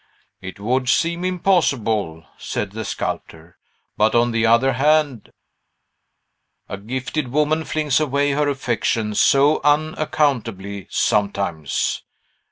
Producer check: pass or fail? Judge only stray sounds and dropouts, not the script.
pass